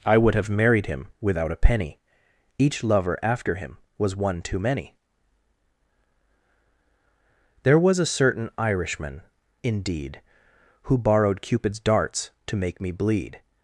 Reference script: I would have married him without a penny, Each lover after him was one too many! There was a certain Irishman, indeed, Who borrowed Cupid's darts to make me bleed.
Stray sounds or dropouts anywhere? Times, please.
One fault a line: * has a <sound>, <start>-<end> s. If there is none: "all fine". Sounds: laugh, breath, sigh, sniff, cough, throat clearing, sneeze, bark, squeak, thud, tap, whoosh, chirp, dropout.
all fine